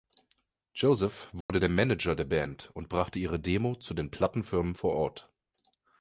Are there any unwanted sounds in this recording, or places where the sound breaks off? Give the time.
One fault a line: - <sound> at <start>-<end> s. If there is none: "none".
- dropout at 1.4-1.5 s